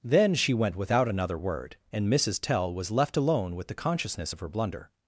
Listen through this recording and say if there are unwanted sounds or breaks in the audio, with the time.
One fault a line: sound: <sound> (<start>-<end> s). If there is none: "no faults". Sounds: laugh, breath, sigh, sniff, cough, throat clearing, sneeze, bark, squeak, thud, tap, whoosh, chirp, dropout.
no faults